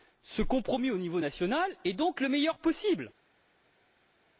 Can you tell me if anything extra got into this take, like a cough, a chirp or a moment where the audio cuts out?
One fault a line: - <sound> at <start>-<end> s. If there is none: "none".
none